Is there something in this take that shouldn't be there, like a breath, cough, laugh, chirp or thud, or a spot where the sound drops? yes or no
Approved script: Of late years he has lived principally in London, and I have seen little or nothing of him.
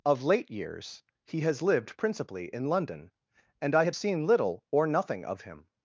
no